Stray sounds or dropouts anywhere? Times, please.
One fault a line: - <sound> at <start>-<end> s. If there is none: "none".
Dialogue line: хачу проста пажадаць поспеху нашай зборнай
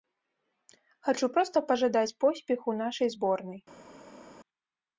none